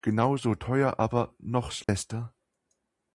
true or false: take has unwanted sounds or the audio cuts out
true